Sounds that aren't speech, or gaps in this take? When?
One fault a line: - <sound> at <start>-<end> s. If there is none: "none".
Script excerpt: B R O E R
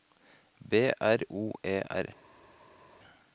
none